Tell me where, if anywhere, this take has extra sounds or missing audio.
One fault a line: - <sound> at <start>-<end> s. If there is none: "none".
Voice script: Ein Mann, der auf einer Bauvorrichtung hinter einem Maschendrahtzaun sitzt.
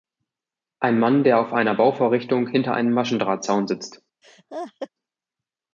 - laugh at 4.2-4.9 s